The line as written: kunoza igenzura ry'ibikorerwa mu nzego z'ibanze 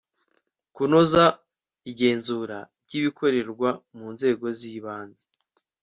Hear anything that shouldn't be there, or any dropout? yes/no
no